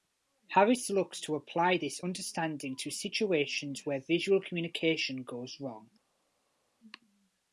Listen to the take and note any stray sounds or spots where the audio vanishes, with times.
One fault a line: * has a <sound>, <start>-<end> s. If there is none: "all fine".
all fine